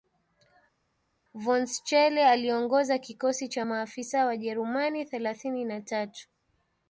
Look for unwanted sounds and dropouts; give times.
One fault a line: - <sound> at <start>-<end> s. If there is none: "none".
none